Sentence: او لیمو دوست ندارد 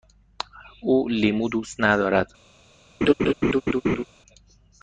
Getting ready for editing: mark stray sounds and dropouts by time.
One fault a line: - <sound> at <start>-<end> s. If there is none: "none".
- laugh at 3.0-4.0 s